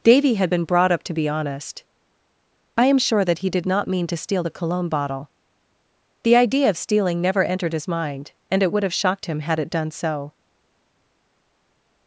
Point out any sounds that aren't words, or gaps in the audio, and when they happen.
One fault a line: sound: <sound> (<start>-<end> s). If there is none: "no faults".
no faults